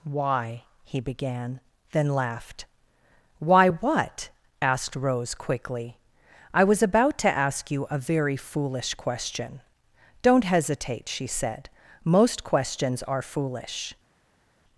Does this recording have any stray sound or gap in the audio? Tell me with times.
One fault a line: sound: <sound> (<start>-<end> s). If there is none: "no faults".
no faults